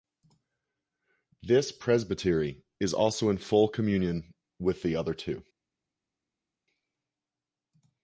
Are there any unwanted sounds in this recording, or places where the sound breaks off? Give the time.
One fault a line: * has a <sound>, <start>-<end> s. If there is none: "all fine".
all fine